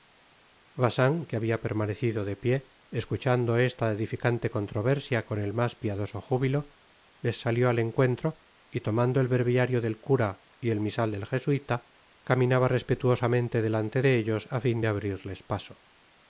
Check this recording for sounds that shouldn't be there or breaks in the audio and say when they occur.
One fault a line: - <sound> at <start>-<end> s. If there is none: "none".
none